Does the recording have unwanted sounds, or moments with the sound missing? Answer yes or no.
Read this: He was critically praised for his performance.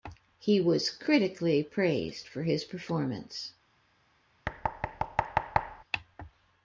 yes